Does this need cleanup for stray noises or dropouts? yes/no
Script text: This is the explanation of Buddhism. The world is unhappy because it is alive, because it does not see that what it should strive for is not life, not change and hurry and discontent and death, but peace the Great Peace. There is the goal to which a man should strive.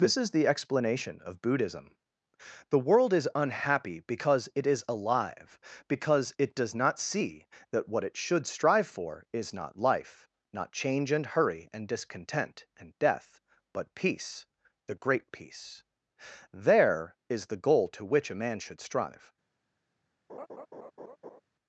yes